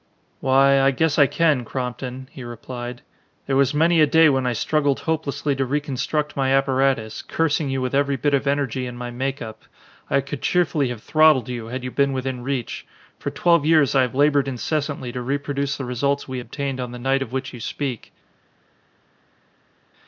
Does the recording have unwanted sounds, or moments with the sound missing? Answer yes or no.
no